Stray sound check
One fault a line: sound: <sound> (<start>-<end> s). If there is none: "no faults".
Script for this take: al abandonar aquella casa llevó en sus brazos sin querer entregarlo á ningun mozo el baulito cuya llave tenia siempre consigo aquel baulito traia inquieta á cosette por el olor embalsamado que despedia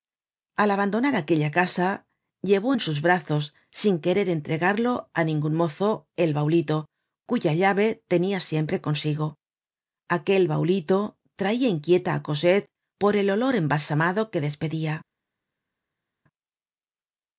no faults